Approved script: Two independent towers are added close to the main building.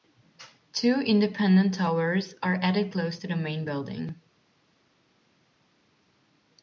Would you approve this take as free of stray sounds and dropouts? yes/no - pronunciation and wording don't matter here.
yes